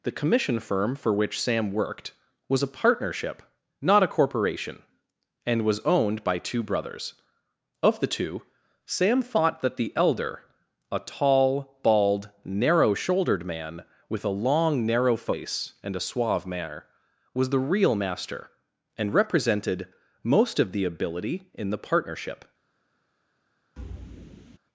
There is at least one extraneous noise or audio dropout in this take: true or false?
true